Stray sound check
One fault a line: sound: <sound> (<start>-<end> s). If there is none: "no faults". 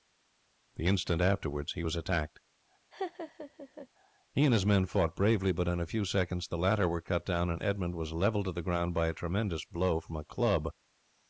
sound: laugh (2.9-3.9 s)